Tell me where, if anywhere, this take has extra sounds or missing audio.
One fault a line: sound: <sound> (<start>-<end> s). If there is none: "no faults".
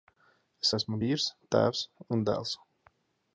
no faults